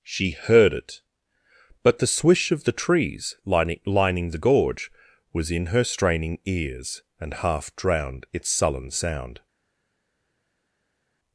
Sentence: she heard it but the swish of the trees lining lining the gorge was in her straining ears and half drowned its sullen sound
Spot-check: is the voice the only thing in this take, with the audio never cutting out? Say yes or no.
yes